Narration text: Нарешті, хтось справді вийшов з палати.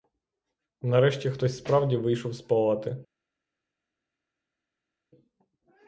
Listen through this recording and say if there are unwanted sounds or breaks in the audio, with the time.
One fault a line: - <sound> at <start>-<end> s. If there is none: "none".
none